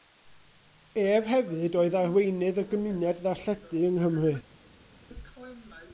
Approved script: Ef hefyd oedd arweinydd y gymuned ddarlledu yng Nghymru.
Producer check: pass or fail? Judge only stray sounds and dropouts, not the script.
pass